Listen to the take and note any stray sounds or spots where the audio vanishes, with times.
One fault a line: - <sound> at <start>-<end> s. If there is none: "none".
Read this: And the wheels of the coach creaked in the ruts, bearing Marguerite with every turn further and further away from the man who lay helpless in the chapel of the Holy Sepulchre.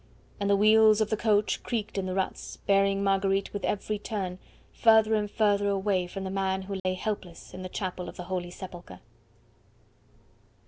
- dropout at 6.8-6.9 s